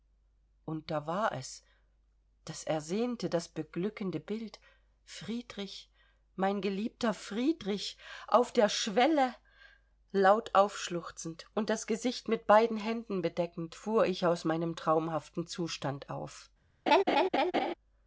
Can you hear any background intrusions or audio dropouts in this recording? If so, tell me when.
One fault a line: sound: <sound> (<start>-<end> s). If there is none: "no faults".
sound: laugh (16.9-17.7 s)